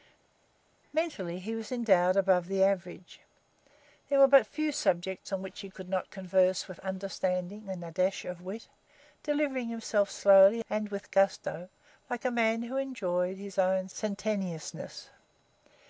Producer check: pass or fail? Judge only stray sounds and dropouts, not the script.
pass